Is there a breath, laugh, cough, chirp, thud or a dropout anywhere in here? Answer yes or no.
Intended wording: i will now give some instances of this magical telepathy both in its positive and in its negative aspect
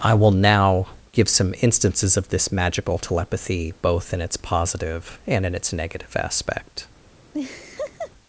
yes